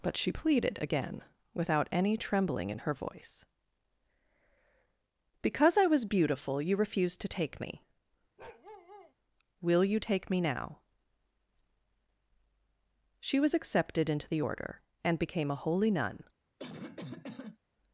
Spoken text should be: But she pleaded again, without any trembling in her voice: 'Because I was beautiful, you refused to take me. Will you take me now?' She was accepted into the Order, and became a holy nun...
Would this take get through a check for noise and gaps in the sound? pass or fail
fail